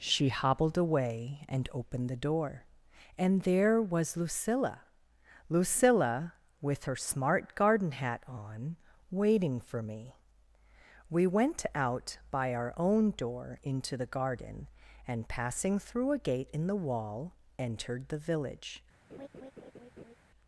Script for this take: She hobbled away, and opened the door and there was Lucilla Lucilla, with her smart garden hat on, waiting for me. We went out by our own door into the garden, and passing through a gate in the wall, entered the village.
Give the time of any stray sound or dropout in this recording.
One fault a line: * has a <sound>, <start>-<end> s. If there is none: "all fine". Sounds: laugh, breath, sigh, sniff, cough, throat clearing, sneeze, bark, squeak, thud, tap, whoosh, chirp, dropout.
* has a laugh, 19.1-20.2 s